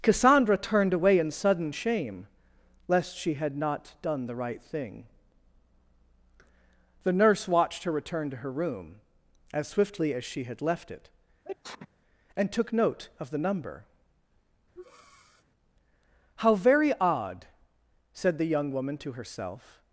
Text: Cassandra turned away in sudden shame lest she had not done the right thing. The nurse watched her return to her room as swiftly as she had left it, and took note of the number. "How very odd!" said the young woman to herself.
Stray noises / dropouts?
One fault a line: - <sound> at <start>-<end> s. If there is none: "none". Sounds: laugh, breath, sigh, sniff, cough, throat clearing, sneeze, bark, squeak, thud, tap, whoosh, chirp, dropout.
- sneeze at 11.5-11.9 s
- breath at 14.8-15.4 s